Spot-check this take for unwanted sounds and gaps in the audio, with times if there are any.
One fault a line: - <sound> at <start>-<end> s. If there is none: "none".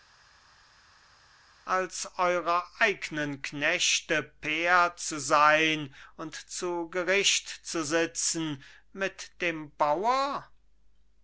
none